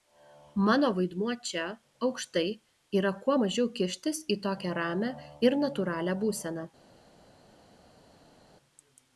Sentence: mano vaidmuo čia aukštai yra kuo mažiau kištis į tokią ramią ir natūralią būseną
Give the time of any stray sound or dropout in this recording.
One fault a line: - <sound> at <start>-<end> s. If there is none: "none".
none